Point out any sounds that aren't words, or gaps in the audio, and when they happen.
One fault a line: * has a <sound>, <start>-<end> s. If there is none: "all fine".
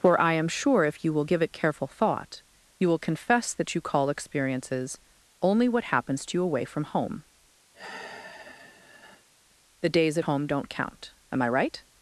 * has a sigh, 7.7-9.3 s